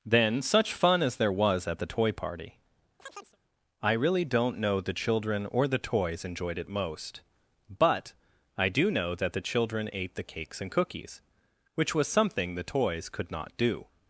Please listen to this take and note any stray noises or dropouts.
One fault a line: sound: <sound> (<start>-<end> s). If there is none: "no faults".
sound: chirp (3.0-3.4 s)